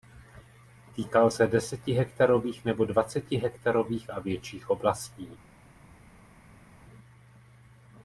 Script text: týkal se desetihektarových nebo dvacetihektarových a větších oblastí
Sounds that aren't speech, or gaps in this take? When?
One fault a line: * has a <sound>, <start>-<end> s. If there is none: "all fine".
all fine